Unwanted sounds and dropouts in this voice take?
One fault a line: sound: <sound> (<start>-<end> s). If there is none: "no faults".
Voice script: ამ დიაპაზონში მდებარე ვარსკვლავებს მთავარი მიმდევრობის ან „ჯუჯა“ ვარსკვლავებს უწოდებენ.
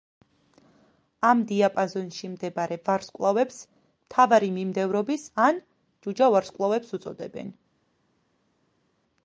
no faults